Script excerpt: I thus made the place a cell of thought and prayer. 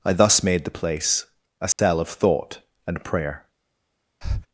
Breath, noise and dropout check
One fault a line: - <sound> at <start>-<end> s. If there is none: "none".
- dropout at 1.7-1.8 s
- breath at 4.2-4.5 s